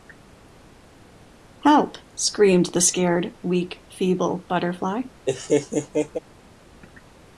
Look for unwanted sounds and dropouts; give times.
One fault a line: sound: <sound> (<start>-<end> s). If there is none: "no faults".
sound: laugh (5.3-6.2 s)